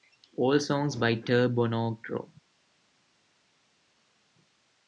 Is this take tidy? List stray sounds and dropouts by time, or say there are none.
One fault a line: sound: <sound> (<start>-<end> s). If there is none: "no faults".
no faults